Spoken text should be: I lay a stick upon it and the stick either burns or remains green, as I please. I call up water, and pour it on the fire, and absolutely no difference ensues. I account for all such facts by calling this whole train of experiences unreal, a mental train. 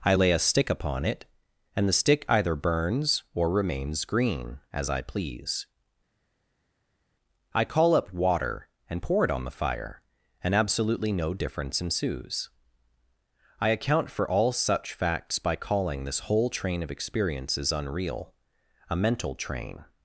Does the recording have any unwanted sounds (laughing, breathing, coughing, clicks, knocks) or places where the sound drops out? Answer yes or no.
no